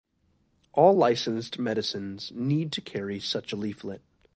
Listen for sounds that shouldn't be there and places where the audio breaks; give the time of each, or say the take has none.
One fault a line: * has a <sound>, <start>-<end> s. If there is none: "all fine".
all fine